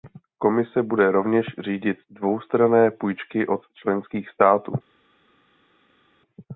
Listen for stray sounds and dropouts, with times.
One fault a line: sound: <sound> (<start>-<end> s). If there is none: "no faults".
no faults